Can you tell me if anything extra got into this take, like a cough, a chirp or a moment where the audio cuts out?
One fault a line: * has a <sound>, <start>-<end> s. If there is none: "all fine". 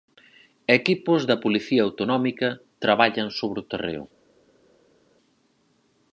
all fine